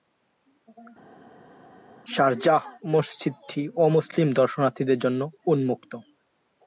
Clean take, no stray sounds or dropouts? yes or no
yes